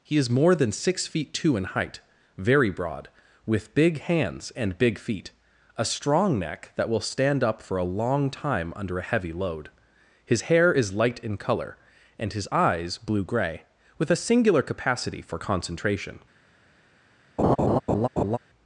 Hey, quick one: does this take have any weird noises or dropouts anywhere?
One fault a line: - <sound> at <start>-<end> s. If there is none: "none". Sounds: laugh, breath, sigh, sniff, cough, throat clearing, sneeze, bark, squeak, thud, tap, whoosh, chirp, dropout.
- laugh at 17.4-18.4 s